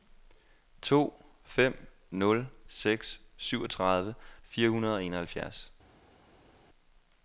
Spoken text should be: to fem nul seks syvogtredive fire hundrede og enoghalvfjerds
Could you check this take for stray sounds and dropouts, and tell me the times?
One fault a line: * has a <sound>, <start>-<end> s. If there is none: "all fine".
all fine